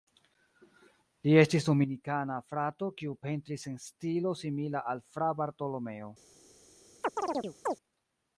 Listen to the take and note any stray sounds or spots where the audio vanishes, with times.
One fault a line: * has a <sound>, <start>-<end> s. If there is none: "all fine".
* has a chirp, 7.0-7.8 s